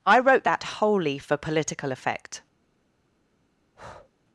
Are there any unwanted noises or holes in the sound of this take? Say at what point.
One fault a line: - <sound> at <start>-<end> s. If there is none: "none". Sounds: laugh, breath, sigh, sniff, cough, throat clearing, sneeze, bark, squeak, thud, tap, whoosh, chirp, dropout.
- breath at 3.7-4.1 s